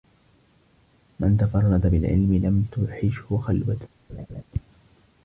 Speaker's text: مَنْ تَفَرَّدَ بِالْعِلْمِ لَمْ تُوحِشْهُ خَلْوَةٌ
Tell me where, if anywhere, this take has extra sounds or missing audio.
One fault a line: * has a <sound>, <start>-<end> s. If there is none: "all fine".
* has a laugh, 4.1-4.4 s